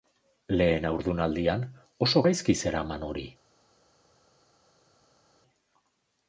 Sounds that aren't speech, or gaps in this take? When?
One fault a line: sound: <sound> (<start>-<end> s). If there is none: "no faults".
no faults